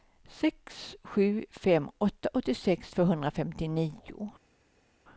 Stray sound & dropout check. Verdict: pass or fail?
pass